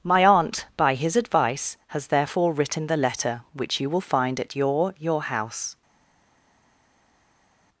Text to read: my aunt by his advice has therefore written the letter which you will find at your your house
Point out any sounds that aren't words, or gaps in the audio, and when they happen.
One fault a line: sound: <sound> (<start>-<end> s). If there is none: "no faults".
no faults